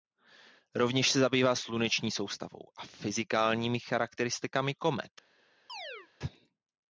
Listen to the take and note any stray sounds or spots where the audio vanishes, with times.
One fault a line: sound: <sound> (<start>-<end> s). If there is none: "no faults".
sound: chirp (5.7-6.1 s)